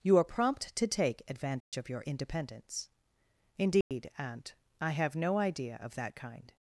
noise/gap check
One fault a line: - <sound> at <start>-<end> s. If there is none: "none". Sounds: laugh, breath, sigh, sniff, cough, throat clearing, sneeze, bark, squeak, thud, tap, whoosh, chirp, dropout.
- dropout at 1.6-1.7 s
- dropout at 3.8-3.9 s